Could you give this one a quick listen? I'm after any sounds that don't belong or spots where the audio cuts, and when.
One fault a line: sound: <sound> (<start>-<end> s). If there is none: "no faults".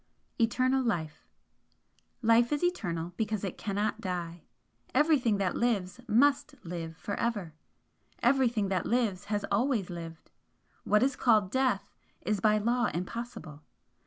no faults